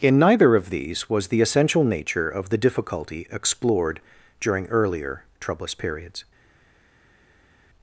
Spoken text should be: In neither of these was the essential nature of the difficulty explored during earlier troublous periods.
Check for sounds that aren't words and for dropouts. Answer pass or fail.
pass